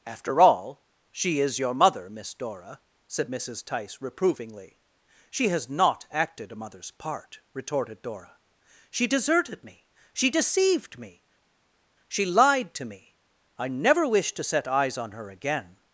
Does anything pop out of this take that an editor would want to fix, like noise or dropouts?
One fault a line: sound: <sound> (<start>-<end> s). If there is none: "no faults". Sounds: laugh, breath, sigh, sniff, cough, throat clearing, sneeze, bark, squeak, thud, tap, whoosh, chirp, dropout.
no faults